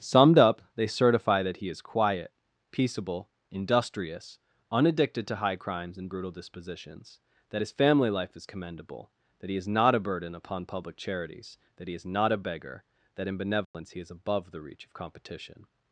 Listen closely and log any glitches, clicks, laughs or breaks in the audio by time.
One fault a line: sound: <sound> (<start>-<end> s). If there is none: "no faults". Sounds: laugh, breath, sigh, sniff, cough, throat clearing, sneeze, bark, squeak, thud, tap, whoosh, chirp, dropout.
sound: dropout (13.6-13.7 s)